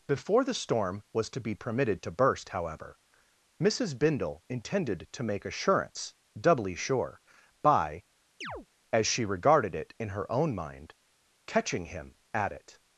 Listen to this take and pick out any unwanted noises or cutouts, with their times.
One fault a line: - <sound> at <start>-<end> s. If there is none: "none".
- chirp at 8.4-8.7 s